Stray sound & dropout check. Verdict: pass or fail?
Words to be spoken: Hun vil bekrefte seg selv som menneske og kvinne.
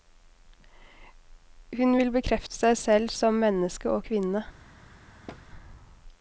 fail